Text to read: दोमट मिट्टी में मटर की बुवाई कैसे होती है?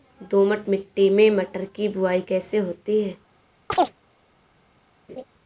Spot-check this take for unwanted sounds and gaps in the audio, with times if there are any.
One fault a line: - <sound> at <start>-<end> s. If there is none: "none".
- chirp at 3.7-4.0 s
- laugh at 5.1-5.2 s